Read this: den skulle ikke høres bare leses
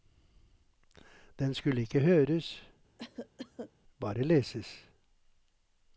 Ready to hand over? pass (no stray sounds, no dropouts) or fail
fail